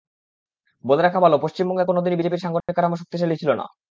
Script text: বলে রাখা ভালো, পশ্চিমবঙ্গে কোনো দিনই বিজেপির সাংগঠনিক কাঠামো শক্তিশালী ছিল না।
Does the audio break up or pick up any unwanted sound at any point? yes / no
yes